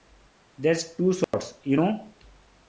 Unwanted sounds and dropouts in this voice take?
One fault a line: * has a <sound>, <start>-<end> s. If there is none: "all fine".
* has a dropout, 1.2-1.3 s